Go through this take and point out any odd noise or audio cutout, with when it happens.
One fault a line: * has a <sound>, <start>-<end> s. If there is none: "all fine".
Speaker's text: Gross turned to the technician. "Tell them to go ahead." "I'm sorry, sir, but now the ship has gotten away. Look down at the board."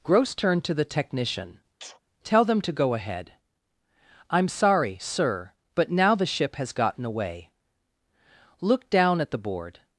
* has a sneeze, 1.8-2.0 s